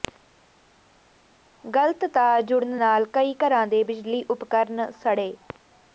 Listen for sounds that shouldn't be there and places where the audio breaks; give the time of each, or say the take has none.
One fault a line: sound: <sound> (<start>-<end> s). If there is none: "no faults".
no faults